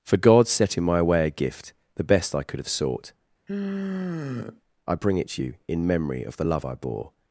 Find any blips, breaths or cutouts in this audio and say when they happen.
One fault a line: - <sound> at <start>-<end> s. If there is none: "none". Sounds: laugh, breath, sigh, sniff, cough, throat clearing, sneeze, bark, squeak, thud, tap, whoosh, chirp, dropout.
- sigh at 3.5-4.6 s